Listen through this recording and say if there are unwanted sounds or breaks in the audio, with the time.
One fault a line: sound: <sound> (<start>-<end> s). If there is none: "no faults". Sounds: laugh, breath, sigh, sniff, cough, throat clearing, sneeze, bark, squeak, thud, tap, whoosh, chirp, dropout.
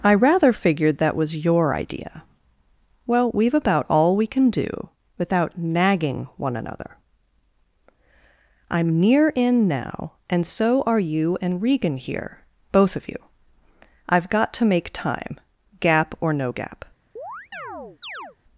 sound: chirp (17.2-18.4 s)